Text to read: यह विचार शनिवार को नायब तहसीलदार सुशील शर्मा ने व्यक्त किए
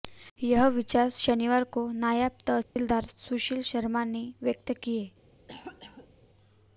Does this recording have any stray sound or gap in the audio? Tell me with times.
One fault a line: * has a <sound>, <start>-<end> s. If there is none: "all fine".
* has a dropout, 2.6-2.8 s
* has a cough, 5.5-6.1 s